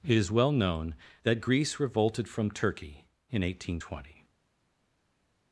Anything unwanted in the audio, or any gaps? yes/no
no